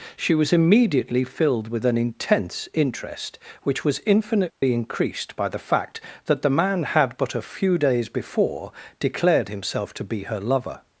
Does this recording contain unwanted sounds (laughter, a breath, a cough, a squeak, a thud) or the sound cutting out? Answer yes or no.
yes